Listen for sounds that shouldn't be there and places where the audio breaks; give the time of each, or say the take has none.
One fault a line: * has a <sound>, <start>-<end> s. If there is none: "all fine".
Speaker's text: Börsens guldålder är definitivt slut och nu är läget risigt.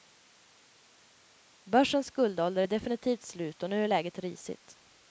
all fine